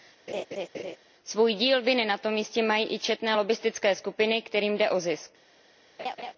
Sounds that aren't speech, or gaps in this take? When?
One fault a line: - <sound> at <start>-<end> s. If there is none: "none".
- laugh at 0.3-1.0 s
- laugh at 6.0-6.3 s